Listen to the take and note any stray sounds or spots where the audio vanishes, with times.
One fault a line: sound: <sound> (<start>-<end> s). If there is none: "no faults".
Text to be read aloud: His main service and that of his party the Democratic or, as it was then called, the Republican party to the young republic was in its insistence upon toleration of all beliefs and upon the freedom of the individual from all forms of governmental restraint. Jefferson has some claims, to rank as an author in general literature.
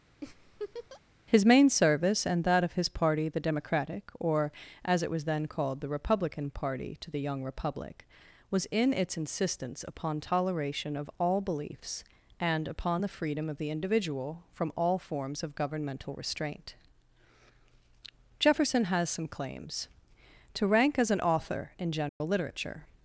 sound: laugh (0.2-1.0 s)
sound: dropout (22.1-22.2 s)